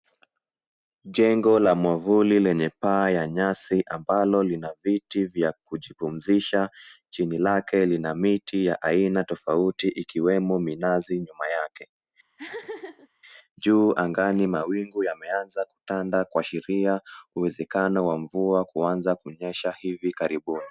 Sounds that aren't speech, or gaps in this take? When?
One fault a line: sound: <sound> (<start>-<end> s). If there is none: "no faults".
sound: laugh (12.4-13.1 s)